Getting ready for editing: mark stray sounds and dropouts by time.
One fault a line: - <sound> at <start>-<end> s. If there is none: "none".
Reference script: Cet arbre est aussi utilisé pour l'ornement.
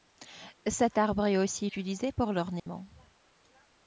- dropout at 2.6-2.7 s